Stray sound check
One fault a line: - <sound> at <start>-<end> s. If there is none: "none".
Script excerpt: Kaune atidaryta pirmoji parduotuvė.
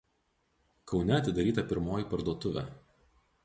none